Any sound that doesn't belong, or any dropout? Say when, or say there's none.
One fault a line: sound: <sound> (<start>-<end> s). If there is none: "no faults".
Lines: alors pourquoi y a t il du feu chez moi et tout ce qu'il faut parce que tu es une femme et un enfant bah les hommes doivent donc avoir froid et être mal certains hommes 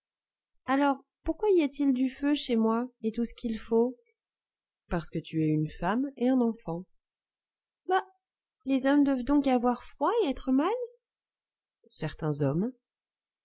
no faults